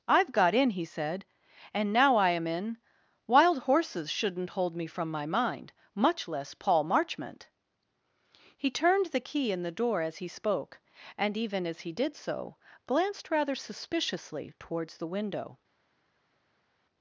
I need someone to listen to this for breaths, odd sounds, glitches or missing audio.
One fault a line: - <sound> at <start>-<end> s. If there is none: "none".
none